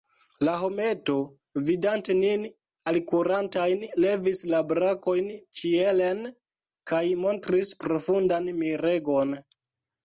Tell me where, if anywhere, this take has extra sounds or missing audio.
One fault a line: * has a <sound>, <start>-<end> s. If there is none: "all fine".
all fine